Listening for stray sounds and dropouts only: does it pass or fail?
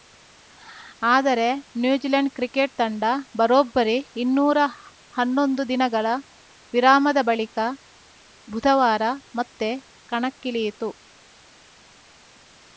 pass